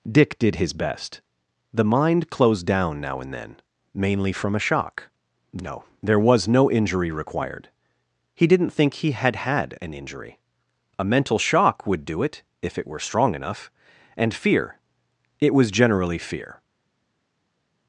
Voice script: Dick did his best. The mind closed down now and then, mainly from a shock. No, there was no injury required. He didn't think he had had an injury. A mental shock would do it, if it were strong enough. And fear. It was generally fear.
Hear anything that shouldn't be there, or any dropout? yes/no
no